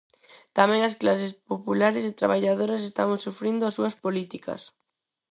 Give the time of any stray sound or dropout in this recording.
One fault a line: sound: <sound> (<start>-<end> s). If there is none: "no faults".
no faults